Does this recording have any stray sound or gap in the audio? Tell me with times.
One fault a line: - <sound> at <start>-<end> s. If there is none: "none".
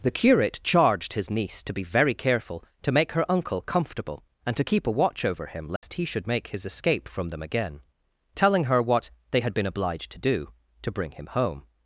- dropout at 5.8-5.8 s